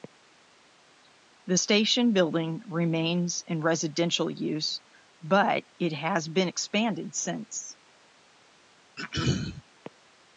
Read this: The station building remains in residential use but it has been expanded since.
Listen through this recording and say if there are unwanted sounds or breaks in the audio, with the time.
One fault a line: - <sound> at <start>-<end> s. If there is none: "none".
- throat clearing at 9.0-9.6 s